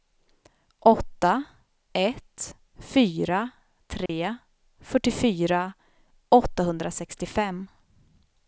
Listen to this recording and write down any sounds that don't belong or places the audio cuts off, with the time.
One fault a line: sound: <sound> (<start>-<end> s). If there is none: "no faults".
sound: dropout (4.1-4.1 s)